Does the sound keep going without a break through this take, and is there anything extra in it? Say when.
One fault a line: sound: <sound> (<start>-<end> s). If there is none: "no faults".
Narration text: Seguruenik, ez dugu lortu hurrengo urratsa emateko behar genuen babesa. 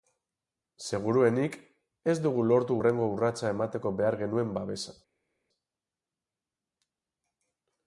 no faults